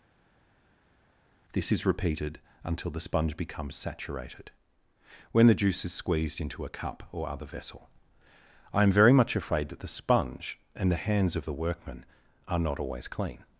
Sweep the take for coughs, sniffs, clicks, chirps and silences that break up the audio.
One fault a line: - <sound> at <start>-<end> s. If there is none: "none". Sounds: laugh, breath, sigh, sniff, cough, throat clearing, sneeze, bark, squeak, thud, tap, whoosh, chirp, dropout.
none